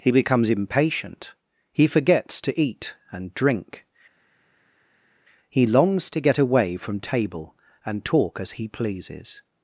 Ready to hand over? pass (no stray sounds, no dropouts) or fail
pass